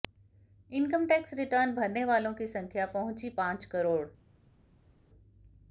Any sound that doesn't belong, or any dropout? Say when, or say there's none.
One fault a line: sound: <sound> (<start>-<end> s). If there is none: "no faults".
no faults